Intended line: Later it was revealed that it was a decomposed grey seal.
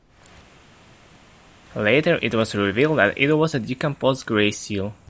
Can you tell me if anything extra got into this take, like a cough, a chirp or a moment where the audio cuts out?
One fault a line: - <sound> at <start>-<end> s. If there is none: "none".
none